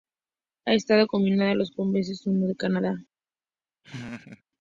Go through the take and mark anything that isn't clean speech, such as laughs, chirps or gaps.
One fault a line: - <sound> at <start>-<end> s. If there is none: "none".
- laugh at 3.8-4.4 s